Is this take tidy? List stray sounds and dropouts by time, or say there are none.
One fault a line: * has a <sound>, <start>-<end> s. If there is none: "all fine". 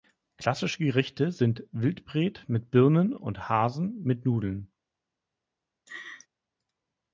* has a laugh, 5.9-6.3 s